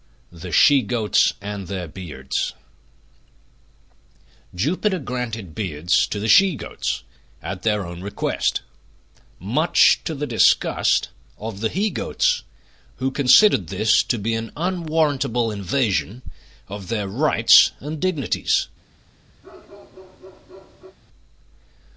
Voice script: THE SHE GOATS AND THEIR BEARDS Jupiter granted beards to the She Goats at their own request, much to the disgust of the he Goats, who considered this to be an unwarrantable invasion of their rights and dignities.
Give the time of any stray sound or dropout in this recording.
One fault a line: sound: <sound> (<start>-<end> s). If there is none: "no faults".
sound: bark (19.4-21.0 s)